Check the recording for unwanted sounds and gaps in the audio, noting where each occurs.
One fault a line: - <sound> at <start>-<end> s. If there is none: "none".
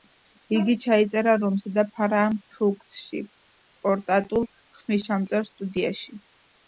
none